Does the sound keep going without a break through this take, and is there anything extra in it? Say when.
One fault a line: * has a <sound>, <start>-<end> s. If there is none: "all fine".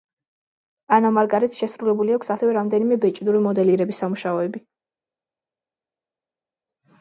all fine